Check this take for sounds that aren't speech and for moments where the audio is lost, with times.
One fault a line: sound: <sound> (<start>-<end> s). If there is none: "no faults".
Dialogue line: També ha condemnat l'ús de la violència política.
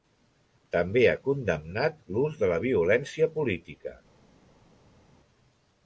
no faults